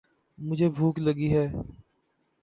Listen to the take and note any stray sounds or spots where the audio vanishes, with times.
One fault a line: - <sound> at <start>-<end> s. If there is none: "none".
none